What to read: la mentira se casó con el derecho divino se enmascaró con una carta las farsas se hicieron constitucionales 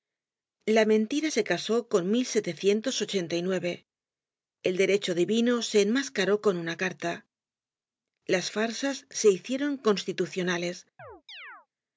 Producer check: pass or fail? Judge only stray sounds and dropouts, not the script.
fail